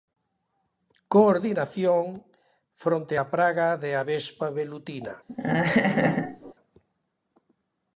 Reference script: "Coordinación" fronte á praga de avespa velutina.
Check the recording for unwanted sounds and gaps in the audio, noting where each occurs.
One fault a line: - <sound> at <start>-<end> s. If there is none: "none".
- laugh at 5.3-6.5 s